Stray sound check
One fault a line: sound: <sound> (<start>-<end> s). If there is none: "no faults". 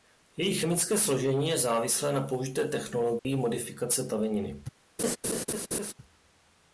sound: dropout (3.2-3.2 s)
sound: laugh (5.0-5.9 s)